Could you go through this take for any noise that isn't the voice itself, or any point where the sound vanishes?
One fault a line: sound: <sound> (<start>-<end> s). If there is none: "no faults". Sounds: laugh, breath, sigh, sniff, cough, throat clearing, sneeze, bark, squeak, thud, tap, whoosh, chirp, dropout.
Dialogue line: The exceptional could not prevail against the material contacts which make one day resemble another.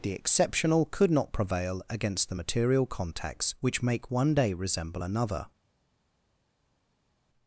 no faults